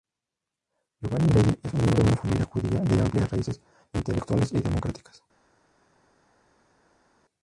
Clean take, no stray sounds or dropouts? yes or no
yes